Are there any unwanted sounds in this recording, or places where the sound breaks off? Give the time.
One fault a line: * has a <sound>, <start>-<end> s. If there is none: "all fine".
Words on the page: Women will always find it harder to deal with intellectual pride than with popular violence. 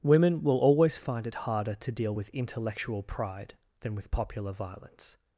all fine